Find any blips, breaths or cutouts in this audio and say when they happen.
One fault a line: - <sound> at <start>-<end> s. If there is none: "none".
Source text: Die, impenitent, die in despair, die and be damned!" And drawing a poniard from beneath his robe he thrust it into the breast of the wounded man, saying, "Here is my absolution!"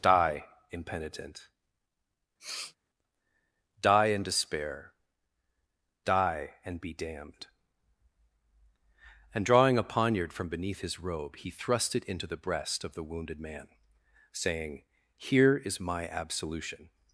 - sniff at 2.4-2.8 s